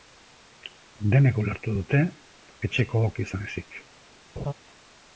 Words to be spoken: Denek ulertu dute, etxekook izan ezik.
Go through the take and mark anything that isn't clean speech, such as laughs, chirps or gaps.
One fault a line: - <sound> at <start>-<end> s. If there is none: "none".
- laugh at 4.4-4.5 s